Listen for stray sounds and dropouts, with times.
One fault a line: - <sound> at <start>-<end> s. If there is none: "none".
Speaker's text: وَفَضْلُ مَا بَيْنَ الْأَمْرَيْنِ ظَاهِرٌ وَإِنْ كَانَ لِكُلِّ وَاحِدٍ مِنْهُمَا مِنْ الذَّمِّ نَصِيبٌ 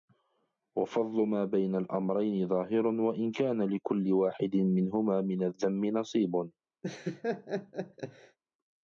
- laugh at 6.8-8.4 s